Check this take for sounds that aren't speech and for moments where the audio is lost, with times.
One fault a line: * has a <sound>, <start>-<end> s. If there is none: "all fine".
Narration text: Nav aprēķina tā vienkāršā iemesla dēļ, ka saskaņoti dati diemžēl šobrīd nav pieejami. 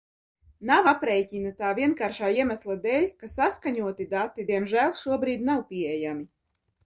all fine